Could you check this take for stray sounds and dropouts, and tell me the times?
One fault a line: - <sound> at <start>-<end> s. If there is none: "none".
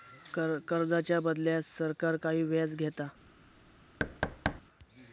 - thud at 4.0-4.6 s